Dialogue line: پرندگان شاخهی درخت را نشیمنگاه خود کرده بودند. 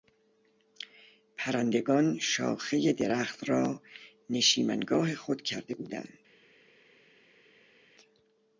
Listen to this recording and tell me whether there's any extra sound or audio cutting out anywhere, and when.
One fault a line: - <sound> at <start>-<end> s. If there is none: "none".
none